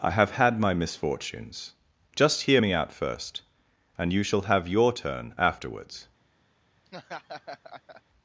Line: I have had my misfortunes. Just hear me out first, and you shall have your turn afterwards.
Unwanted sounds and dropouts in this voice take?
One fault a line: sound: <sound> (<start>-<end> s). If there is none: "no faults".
sound: laugh (6.9-8.0 s)